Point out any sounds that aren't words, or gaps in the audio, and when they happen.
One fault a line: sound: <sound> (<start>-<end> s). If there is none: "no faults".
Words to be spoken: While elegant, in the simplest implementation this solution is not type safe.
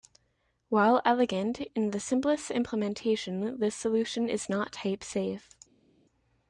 no faults